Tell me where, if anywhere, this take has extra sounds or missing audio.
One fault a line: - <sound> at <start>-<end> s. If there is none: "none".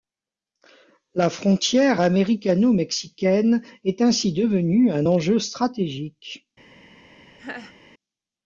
- laugh at 7.4-7.7 s